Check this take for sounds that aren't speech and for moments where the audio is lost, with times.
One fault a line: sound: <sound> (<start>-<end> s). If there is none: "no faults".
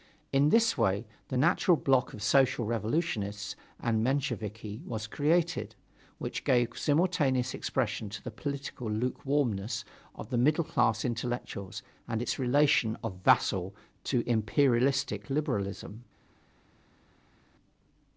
no faults